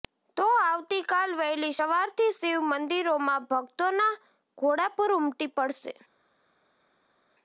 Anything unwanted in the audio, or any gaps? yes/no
no